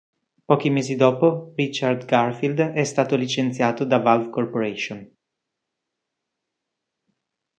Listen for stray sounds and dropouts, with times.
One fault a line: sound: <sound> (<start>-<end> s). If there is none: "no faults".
no faults